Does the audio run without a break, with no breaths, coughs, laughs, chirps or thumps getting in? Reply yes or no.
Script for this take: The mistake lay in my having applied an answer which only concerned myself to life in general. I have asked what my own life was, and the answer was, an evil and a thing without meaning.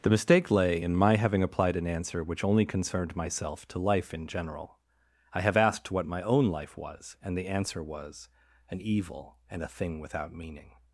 yes